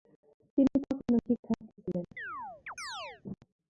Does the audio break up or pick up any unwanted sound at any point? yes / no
yes